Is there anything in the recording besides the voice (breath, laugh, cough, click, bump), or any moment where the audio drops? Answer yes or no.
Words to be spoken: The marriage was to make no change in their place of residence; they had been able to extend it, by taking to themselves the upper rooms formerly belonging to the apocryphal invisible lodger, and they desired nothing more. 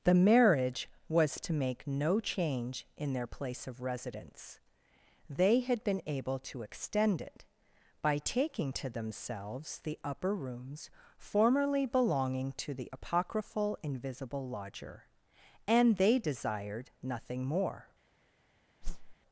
yes